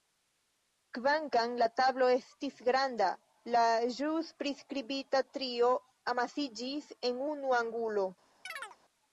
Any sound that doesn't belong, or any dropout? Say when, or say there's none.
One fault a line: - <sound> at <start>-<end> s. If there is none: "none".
- chirp at 8.5-8.8 s